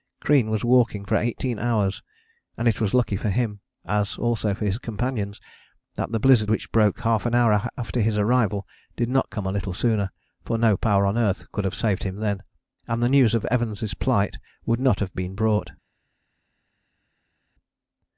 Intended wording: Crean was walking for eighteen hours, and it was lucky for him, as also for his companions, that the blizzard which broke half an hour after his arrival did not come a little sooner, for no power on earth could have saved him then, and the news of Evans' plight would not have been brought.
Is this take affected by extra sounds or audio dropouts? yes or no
no